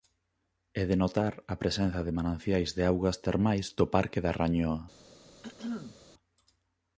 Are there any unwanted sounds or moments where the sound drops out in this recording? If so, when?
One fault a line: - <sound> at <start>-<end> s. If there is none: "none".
- throat clearing at 5.4-6.0 s